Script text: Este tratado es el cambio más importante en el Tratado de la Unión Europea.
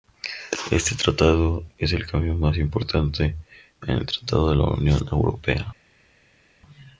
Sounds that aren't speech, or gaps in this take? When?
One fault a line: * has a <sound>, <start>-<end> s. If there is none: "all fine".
all fine